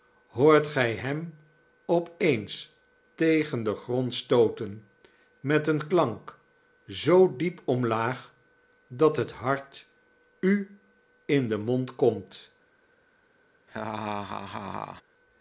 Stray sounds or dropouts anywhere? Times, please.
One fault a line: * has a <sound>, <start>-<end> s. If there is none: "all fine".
* has a laugh, 13.7-15.0 s